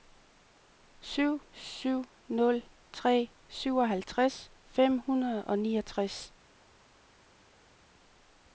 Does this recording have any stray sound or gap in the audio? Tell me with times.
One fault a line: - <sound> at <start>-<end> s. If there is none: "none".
none